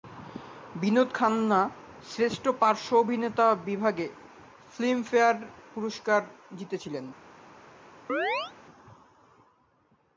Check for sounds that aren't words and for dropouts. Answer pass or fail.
fail